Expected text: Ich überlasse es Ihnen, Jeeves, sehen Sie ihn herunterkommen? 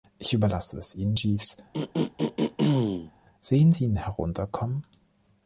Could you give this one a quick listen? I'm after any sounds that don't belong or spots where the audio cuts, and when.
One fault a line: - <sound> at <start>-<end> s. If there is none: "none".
- throat clearing at 1.7-3.1 s